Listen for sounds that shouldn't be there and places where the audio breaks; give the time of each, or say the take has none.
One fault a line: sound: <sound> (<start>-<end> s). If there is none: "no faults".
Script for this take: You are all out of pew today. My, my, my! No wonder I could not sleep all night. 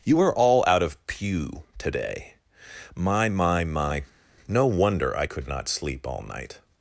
no faults